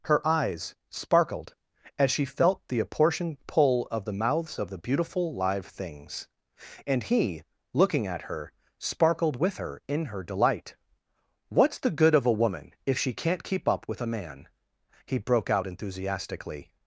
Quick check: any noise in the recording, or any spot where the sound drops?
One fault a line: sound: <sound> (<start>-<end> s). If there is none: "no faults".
no faults